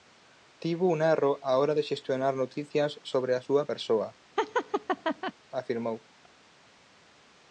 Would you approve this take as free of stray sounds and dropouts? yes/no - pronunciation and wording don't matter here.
no